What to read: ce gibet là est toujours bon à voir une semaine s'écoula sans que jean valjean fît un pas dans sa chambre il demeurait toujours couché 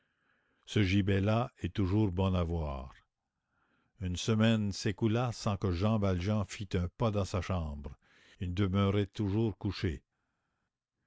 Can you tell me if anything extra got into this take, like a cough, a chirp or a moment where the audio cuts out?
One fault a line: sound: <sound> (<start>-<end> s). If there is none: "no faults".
no faults